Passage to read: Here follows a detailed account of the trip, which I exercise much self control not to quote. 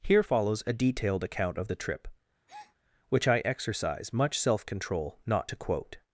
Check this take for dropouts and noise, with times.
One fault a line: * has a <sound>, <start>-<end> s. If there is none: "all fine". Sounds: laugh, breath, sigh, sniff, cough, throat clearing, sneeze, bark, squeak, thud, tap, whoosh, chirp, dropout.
* has a breath, 2.5-2.8 s